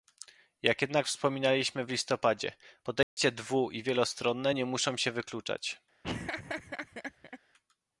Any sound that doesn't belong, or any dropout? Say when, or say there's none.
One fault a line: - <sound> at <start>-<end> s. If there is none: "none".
- dropout at 3.0-3.2 s
- laugh at 6.0-7.4 s